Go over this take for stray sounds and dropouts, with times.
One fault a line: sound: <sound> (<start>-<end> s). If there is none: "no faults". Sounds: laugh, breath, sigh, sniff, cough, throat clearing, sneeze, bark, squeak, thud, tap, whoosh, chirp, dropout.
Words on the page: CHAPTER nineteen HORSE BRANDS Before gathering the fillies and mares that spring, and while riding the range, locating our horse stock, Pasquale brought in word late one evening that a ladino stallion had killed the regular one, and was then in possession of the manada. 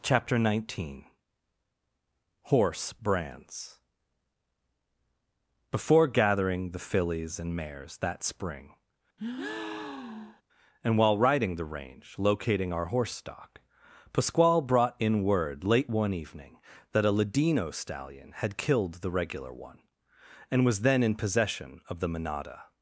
sound: breath (9.2-10.4 s)